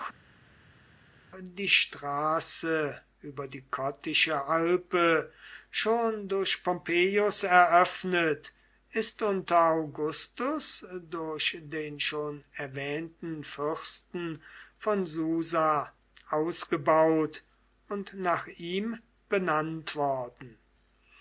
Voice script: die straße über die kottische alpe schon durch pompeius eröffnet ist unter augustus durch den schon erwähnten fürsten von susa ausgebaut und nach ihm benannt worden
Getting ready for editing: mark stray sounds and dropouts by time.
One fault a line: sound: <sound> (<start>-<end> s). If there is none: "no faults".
no faults